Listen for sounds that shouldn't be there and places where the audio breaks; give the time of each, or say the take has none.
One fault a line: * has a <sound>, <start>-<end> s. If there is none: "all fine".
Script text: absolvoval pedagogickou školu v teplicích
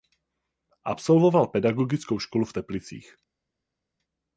all fine